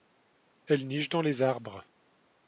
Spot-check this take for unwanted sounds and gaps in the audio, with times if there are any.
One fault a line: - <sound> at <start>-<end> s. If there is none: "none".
none